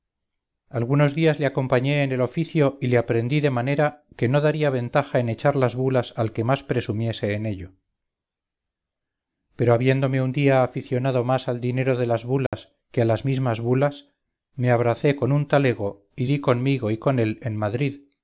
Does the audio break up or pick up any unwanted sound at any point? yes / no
yes